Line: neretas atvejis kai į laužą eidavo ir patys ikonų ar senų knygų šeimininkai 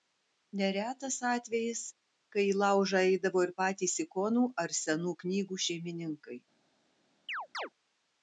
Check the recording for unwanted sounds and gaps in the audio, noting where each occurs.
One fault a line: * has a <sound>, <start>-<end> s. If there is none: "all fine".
* has a chirp, 7.3-7.7 s